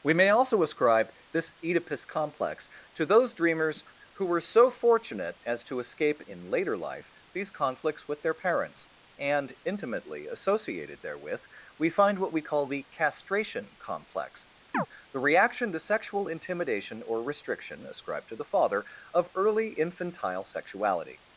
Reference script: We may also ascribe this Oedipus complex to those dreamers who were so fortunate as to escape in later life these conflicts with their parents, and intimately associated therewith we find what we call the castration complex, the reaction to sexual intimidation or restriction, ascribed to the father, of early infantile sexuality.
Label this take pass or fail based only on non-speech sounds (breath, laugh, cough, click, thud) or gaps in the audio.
fail